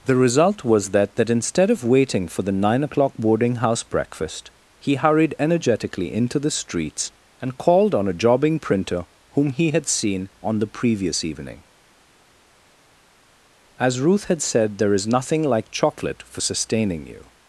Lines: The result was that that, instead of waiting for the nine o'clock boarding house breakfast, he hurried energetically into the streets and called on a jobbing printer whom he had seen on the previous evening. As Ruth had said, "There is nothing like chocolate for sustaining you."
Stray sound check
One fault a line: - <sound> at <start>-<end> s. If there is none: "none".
none